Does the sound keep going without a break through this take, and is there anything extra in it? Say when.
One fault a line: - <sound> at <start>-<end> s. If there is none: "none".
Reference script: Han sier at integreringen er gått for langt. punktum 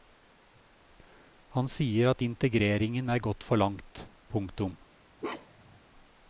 - bark at 5.2-5.8 s